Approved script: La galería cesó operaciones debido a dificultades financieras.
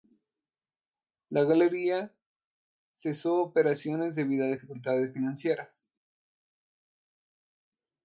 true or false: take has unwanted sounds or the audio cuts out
false